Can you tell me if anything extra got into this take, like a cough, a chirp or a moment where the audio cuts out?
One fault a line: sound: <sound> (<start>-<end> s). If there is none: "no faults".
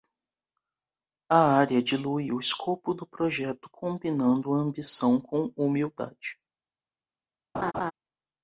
sound: laugh (7.5-7.9 s)